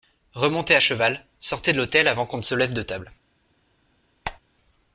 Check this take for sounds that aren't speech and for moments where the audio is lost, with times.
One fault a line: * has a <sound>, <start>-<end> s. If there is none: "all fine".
* has a squeak, 4.2-4.4 s